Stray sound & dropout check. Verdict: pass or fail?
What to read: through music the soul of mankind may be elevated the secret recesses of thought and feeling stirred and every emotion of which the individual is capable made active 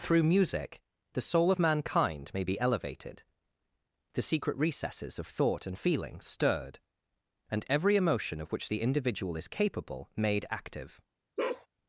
fail